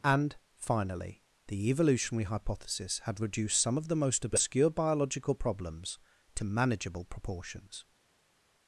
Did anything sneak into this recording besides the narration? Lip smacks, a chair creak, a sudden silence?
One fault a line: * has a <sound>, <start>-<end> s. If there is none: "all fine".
all fine